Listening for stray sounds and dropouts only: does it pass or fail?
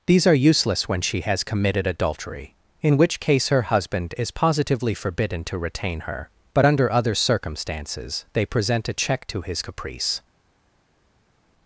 pass